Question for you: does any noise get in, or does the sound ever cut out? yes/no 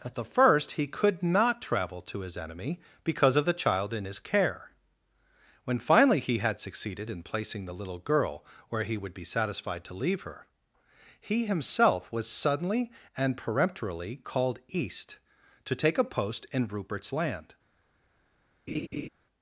yes